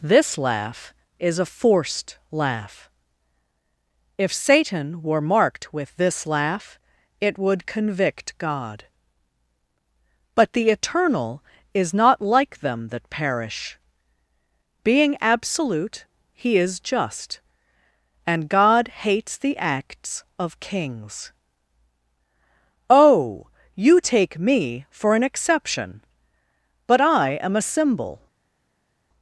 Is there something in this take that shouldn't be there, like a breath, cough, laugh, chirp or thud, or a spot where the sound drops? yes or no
no